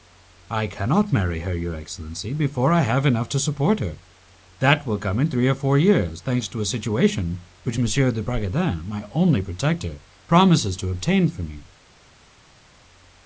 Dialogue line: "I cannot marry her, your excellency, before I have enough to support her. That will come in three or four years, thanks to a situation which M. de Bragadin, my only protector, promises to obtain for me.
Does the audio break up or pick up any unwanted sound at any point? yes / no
no